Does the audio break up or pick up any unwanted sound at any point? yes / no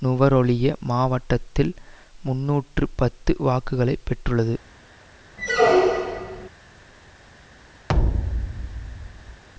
yes